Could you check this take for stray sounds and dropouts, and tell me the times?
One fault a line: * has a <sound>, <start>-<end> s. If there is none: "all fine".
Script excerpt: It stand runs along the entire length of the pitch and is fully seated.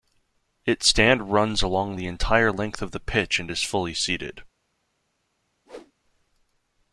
* has a whoosh, 5.7-5.9 s